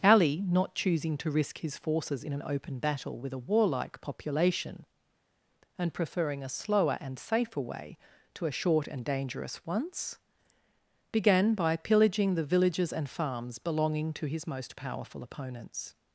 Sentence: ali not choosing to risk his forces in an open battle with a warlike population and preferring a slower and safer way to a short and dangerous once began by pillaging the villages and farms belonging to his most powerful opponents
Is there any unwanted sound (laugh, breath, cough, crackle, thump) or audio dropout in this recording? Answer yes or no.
no